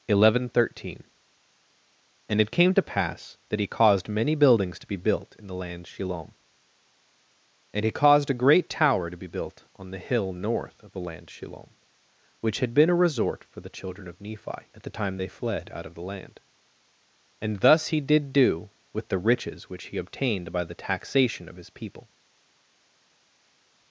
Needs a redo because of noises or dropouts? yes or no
no